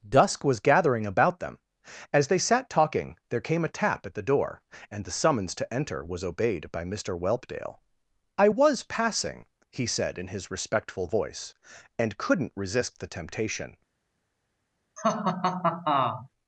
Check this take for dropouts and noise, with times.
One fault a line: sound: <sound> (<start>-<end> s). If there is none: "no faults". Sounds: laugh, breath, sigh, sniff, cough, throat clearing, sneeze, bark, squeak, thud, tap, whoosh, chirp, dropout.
sound: laugh (15.0-16.3 s)